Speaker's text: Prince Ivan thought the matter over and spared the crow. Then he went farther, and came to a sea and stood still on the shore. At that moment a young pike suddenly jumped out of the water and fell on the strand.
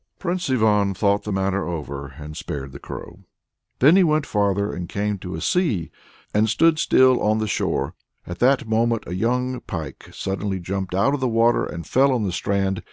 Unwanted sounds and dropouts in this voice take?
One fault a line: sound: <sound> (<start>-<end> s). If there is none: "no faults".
no faults